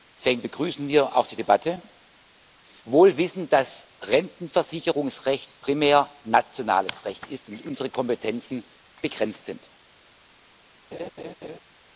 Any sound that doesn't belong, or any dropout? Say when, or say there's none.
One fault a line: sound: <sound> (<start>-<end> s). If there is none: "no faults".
sound: laugh (10.9-11.6 s)